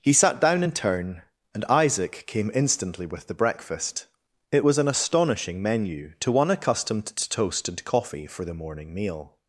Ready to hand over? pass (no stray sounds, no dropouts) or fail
pass